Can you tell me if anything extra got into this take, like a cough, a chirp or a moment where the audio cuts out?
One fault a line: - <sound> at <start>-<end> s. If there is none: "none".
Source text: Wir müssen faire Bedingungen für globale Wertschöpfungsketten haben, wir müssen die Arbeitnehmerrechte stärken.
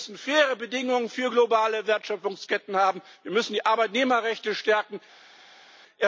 none